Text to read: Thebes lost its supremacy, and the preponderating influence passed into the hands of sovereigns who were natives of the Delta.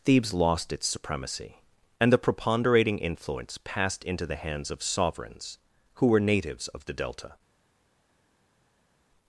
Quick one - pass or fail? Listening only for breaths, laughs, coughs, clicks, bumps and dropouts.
pass